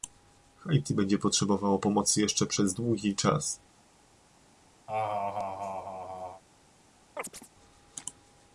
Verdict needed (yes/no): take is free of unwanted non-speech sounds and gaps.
no